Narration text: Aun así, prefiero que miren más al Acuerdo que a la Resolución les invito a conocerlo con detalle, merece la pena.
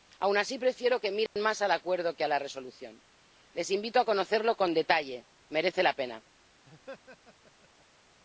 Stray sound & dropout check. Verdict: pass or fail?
fail